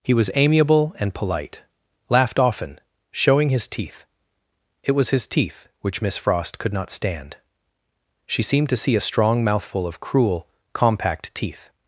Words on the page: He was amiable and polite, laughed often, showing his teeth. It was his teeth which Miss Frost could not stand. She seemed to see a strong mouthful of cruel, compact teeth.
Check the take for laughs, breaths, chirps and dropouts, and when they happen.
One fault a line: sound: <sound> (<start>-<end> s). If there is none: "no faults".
no faults